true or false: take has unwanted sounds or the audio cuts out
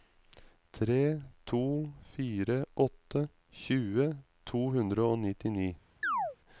true